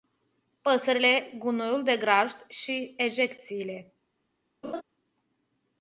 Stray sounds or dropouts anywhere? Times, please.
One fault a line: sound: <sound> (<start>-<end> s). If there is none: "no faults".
sound: laugh (4.6-4.8 s)